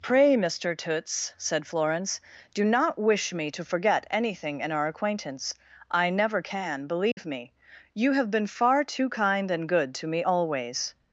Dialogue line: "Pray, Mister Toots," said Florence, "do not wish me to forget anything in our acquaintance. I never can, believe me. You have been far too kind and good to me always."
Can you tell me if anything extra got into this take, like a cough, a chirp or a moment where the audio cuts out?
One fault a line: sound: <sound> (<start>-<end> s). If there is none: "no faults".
sound: dropout (7.1-7.2 s)